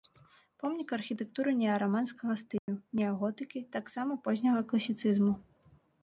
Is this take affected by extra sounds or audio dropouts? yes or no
yes